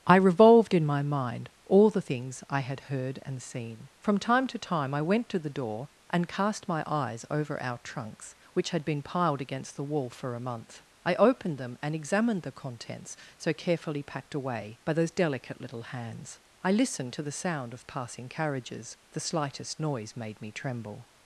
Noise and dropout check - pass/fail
pass